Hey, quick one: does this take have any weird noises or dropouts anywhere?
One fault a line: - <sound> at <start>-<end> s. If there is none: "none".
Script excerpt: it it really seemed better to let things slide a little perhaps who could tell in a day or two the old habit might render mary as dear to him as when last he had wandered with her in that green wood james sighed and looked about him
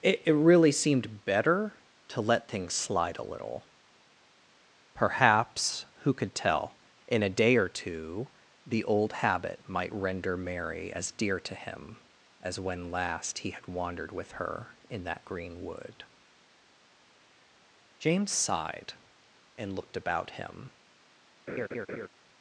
- laugh at 21.5-22.1 s